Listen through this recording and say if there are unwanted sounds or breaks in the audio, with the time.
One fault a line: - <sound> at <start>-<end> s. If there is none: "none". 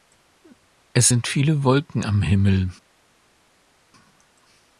none